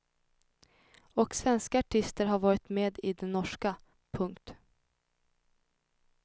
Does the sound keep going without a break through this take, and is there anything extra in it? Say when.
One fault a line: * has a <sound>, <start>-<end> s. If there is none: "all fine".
all fine